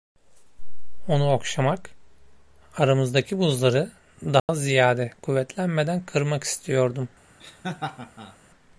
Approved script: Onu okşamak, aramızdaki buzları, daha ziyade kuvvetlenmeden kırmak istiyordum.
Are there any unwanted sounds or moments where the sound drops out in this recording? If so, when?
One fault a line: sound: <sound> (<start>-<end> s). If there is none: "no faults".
sound: dropout (4.4-4.5 s)
sound: laugh (7.4-8.4 s)